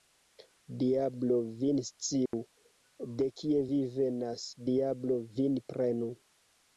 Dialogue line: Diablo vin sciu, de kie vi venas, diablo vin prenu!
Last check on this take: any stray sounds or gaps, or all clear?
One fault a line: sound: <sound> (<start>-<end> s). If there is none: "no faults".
sound: dropout (2.3-2.3 s)